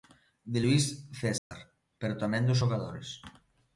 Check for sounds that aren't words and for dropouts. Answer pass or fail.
fail